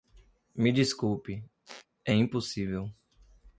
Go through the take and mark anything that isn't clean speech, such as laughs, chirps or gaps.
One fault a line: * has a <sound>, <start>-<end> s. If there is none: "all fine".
* has a squeak, 1.7-1.9 s